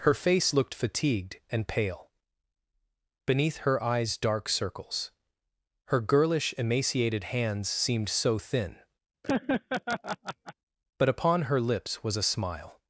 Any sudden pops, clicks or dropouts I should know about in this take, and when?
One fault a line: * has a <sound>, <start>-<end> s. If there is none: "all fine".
* has a laugh, 9.2-10.5 s